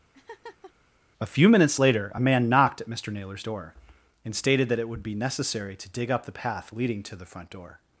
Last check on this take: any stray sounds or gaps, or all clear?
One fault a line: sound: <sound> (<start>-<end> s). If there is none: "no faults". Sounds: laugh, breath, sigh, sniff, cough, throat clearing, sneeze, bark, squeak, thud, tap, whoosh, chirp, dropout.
sound: laugh (0.1-0.7 s)